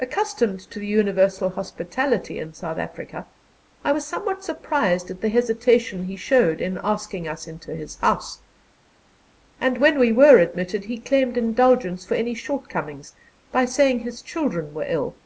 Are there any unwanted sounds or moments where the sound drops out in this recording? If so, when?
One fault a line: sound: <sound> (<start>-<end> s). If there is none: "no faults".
no faults